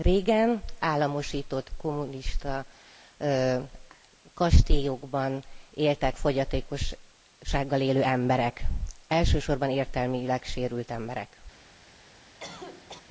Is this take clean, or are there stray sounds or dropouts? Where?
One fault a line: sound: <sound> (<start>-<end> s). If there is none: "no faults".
sound: cough (12.4-13.0 s)